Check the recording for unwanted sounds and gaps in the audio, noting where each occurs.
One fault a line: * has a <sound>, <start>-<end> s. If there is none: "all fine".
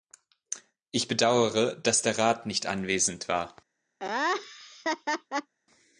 * has a laugh, 4.0-5.5 s